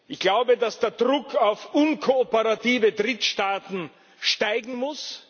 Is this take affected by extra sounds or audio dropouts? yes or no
no